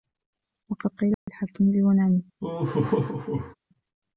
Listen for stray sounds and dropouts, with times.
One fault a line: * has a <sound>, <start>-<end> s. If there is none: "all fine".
* has a dropout, 1.1-1.3 s
* has a laugh, 2.4-3.6 s